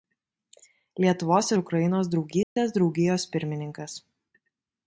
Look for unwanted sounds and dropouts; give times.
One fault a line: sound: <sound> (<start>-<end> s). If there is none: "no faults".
sound: dropout (2.4-2.6 s)